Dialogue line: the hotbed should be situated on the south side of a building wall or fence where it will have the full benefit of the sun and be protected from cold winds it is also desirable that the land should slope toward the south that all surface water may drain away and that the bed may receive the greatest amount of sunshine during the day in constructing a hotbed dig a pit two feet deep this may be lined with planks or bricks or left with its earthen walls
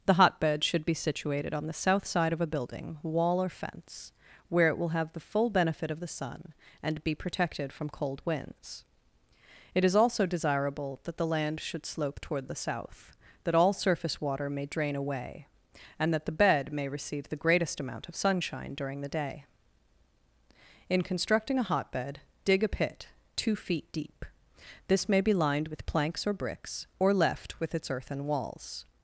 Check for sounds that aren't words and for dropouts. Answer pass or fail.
pass